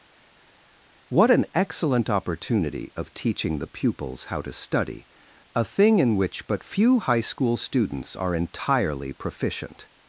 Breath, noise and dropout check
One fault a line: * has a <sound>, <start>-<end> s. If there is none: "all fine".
all fine